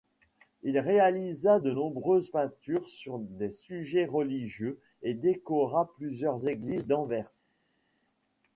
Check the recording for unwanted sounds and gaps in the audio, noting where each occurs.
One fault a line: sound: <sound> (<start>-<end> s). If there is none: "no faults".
no faults